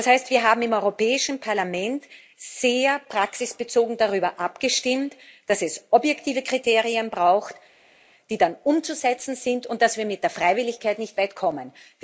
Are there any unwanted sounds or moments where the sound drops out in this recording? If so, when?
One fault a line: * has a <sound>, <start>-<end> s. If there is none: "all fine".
all fine